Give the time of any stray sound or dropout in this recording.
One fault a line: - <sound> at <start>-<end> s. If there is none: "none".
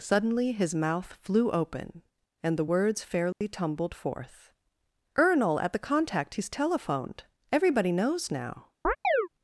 - dropout at 3.3-3.4 s
- chirp at 8.8-9.3 s